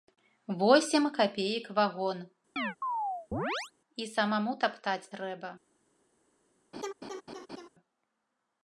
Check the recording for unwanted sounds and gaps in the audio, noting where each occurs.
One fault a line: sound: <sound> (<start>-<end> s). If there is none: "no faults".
sound: chirp (2.6-3.7 s)
sound: laugh (6.7-7.7 s)